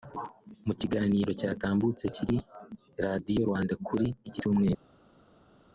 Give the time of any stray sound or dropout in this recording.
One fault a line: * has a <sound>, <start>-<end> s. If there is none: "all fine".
all fine